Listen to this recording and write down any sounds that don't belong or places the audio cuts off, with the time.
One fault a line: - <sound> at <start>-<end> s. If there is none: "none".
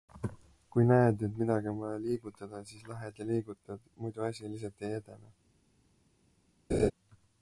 - laugh at 6.7-6.9 s